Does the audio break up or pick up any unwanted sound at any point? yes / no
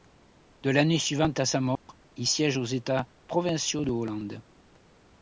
yes